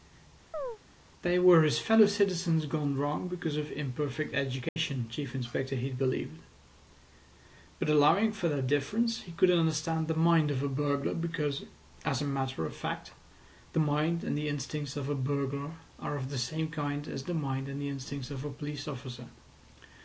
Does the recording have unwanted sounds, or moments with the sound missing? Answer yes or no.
yes